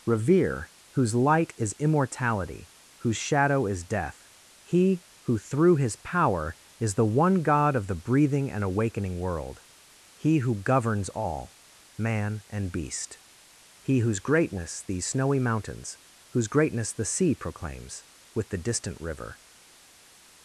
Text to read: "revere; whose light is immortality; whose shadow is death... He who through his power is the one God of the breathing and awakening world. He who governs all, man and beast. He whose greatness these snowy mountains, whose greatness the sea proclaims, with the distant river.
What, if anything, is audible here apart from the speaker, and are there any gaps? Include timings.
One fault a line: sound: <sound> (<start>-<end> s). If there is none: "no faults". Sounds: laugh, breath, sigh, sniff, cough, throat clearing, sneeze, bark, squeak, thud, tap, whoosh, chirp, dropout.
no faults